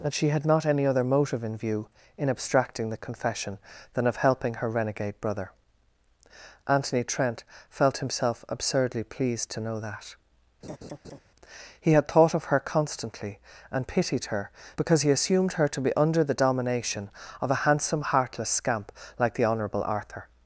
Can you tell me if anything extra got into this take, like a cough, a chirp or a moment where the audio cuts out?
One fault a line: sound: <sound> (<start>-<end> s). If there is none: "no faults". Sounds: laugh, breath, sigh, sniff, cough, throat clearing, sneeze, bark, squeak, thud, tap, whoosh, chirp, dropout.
sound: laugh (10.6-11.2 s)